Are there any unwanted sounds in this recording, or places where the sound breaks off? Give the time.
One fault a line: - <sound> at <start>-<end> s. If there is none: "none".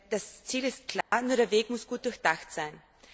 - dropout at 1.0-1.1 s